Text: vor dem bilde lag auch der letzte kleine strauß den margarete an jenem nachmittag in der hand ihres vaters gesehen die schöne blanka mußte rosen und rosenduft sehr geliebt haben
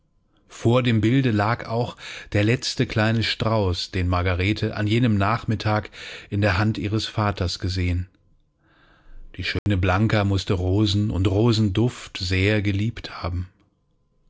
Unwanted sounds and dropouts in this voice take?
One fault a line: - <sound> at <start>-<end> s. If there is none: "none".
- dropout at 9.6-9.7 s